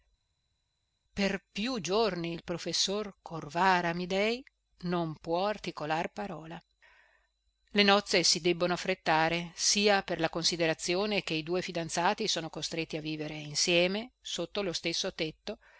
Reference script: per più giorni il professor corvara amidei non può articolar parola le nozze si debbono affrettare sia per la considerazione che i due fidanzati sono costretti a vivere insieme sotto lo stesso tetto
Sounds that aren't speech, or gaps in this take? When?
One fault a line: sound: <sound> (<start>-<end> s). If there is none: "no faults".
no faults